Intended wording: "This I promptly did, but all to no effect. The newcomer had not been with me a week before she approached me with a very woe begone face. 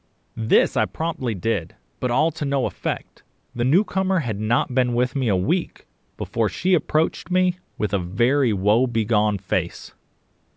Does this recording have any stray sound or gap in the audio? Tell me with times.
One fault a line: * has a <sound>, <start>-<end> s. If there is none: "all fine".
all fine